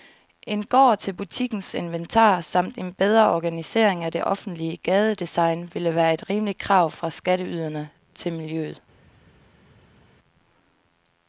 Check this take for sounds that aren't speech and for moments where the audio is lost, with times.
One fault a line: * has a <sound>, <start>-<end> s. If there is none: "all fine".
all fine